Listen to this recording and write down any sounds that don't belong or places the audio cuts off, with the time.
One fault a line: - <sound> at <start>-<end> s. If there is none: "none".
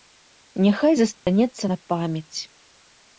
- dropout at 1.1-1.3 s